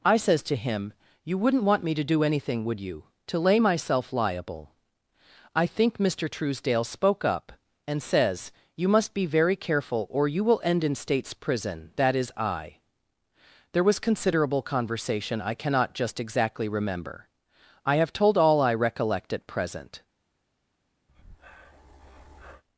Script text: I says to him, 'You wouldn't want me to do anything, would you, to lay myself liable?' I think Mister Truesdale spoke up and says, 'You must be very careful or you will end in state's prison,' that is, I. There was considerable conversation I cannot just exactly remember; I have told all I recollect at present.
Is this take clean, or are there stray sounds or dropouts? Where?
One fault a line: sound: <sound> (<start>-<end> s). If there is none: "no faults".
sound: breath (21.1-22.6 s)